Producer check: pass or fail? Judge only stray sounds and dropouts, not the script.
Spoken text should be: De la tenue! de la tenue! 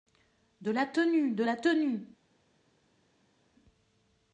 pass